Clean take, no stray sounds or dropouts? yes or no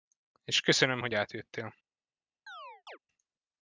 no